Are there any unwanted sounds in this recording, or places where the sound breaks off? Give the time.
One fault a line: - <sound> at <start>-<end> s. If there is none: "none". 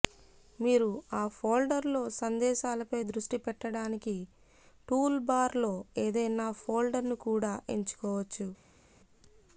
none